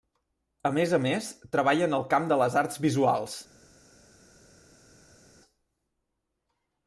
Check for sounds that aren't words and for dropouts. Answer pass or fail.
pass